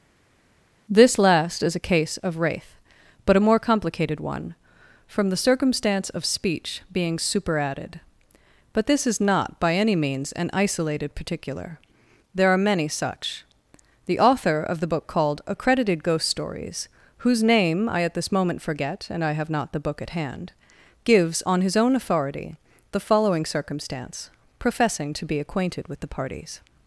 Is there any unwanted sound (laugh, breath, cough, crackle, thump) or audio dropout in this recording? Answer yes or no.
no